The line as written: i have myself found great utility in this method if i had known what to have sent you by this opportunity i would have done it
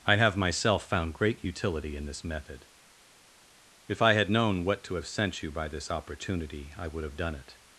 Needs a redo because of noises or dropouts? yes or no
no